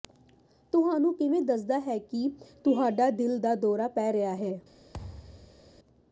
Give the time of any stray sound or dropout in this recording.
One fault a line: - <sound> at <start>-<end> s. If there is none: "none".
- thud at 4.9-5.7 s